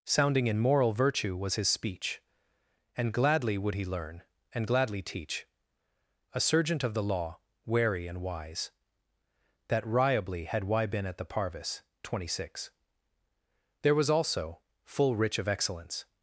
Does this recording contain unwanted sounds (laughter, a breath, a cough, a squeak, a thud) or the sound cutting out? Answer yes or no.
no